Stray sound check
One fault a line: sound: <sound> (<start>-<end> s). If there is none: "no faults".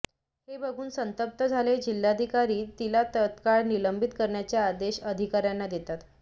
no faults